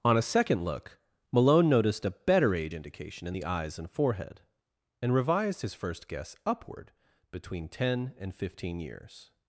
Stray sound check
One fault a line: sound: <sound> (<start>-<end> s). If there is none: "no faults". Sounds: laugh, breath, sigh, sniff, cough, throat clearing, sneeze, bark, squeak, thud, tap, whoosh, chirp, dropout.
no faults